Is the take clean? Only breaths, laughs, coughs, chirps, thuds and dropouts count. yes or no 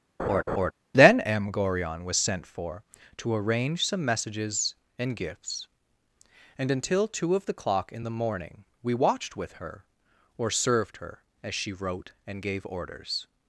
no